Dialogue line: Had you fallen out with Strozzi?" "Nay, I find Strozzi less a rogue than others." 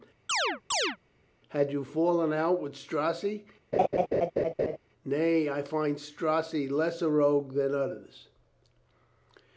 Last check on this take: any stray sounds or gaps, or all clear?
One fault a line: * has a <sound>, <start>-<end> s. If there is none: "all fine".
* has a chirp, 0.3-1.0 s
* has a laugh, 3.7-4.8 s